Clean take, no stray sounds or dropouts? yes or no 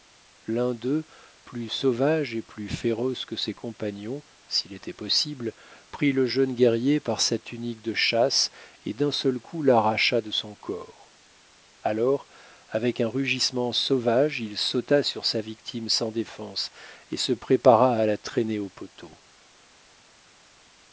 yes